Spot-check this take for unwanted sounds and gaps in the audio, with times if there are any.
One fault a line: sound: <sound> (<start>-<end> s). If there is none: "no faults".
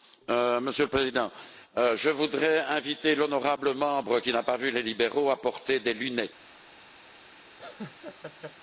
sound: laugh (7.6-8.6 s)